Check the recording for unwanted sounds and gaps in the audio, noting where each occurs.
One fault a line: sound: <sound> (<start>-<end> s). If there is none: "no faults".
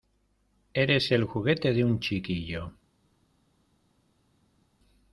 no faults